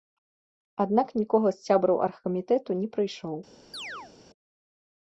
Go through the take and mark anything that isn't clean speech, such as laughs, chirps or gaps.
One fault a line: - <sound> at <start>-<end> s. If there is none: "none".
- chirp at 3.7-4.1 s